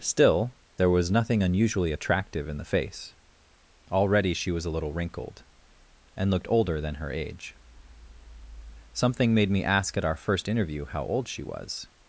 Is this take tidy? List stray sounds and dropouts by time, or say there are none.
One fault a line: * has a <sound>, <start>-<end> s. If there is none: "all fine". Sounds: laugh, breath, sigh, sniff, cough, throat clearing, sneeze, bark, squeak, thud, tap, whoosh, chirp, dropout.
all fine